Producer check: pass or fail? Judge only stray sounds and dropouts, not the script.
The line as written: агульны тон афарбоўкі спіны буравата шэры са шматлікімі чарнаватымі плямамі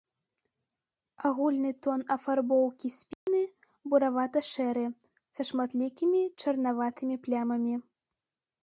fail